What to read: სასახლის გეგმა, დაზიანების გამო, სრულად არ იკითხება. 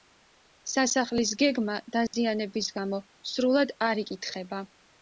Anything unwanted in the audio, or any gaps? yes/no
yes